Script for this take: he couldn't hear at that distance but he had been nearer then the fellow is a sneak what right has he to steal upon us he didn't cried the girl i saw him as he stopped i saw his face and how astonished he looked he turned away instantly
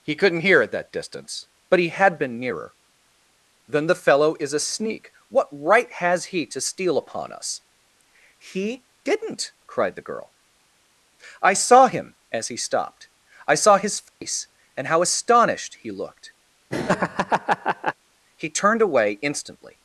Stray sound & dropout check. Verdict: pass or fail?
fail